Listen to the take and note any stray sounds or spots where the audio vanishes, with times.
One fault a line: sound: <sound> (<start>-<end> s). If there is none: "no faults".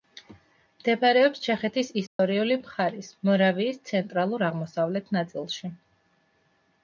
sound: dropout (2.1-2.2 s)